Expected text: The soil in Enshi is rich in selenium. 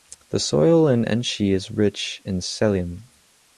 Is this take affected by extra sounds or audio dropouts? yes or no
no